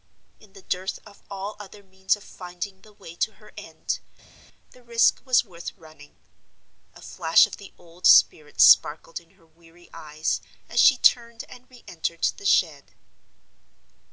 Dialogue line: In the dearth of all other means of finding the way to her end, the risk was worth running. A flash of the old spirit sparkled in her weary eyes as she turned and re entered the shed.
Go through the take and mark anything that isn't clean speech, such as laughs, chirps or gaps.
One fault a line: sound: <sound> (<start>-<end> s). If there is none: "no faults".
no faults